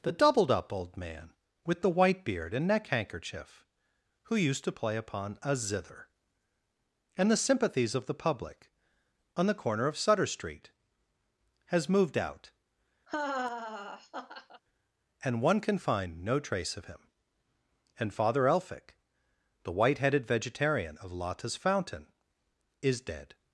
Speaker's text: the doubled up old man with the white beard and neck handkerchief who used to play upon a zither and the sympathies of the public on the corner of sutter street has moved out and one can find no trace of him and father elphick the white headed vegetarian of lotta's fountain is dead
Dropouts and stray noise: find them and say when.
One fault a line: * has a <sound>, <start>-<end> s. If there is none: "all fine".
* has a laugh, 13.1-14.6 s